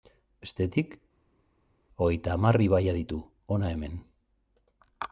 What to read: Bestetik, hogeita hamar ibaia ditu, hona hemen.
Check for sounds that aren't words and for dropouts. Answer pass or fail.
pass